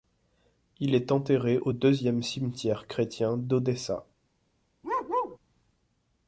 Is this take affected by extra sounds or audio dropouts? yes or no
yes